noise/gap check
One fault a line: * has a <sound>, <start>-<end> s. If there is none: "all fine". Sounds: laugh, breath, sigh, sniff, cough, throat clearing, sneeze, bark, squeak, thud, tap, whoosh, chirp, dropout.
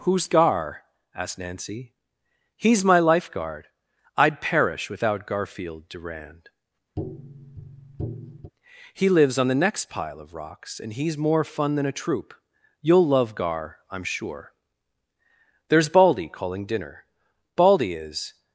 * has a tap, 7.0-8.5 s